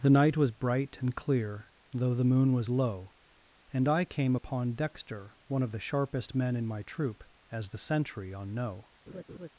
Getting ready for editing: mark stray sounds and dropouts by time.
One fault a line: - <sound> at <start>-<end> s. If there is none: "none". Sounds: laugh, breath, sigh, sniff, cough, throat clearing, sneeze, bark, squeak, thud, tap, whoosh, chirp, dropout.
- laugh at 9.1-9.5 s